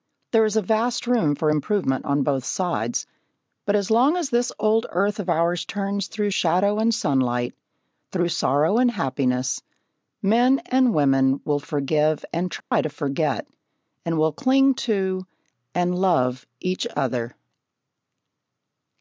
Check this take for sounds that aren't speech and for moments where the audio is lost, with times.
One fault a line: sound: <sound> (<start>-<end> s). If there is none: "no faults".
sound: dropout (12.6-12.7 s)